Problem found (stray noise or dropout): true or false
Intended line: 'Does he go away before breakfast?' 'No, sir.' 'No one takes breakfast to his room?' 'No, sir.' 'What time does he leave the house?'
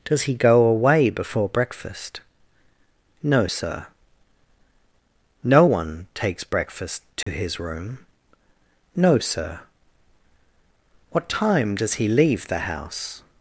true